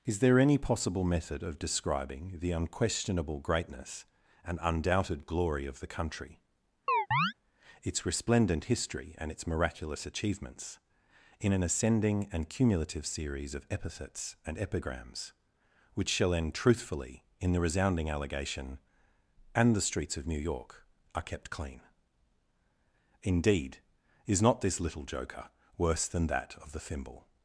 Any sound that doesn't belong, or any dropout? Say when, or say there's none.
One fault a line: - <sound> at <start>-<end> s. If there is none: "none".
- chirp at 6.9-7.3 s